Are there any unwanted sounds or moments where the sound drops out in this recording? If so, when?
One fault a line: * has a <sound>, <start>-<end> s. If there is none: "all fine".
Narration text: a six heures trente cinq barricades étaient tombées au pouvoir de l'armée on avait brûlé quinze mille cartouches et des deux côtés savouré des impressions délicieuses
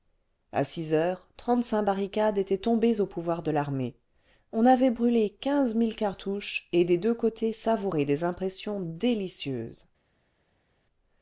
all fine